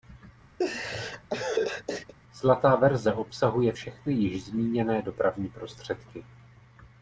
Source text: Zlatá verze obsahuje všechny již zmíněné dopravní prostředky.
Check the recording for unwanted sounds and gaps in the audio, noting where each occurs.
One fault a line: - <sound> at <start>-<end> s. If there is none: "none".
- laugh at 0.6-2.1 s